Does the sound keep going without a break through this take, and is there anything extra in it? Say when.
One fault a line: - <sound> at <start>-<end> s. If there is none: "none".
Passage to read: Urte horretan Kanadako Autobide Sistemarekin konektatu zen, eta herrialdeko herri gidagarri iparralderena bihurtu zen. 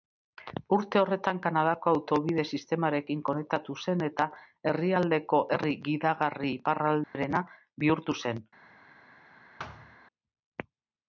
- dropout at 7.0-7.1 s
- thud at 9.6-10.0 s